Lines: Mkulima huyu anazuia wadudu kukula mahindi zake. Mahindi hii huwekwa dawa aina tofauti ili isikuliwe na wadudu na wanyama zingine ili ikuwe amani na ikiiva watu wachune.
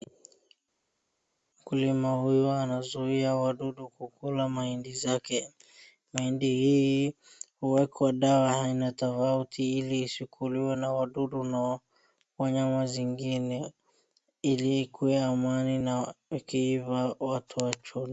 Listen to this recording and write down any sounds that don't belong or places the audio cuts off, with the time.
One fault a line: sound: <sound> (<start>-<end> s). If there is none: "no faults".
no faults